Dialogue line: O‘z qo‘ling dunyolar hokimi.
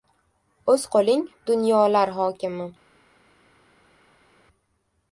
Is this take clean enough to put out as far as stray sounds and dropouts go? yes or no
yes